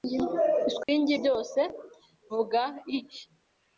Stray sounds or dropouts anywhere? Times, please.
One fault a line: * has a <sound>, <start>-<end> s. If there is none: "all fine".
* has a dropout, 0.8-0.9 s